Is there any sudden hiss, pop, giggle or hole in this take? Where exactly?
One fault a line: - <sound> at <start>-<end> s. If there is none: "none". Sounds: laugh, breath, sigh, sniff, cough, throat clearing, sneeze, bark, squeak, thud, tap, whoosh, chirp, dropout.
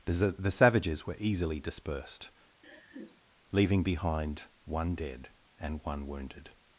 - laugh at 2.6-3.2 s